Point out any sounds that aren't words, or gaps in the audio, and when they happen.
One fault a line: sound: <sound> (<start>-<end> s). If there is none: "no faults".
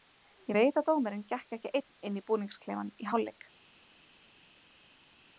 no faults